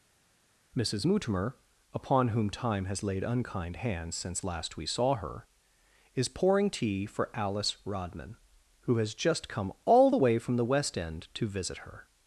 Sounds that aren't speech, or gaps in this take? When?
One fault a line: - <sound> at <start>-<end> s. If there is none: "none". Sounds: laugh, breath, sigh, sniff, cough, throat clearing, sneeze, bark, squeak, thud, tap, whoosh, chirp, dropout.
none